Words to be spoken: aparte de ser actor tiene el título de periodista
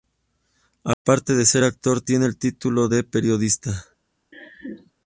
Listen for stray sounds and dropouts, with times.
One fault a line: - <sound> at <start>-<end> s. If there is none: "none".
- dropout at 0.9-1.0 s
- laugh at 4.3-4.9 s